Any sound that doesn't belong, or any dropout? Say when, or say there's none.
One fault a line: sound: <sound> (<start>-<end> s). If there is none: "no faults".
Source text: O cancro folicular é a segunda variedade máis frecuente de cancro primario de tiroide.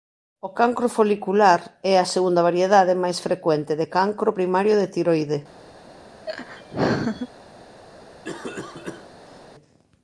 sound: laugh (6.3-7.3 s)
sound: cough (8.2-9.5 s)